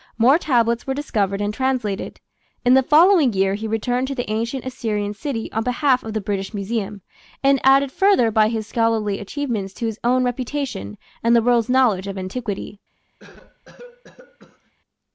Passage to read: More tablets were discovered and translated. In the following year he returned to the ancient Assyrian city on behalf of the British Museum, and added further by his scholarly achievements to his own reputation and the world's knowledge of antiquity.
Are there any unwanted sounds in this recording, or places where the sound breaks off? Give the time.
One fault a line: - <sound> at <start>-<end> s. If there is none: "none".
- cough at 13.2-14.7 s